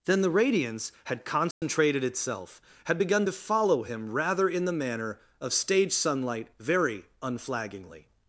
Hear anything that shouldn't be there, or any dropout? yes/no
yes